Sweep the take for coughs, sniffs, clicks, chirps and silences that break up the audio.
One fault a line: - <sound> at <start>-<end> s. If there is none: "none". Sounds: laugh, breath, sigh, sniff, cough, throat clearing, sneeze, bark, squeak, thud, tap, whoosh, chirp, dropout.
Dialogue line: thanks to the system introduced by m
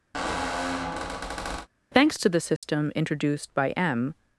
- squeak at 0.1-1.7 s
- dropout at 2.6-2.6 s